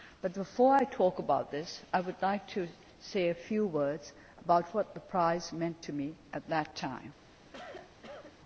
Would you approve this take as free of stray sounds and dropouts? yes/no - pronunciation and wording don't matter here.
no